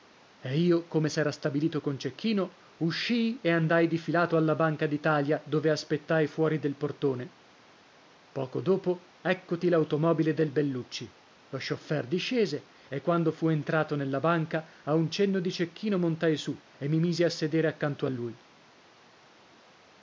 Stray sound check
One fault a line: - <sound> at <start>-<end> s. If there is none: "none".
none